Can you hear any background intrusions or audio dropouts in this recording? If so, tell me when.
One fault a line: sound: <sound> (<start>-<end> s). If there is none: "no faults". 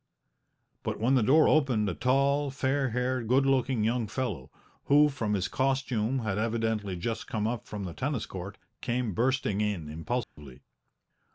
sound: dropout (10.2-10.4 s)